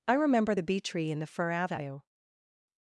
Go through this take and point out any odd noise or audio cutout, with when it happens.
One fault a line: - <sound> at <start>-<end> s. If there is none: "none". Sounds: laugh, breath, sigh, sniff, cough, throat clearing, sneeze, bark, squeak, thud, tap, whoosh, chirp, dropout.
none